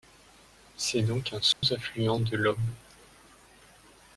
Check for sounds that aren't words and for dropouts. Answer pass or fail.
fail